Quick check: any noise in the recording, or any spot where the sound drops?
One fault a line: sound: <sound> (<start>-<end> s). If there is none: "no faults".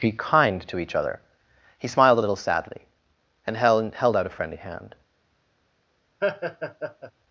sound: laugh (6.2-7.1 s)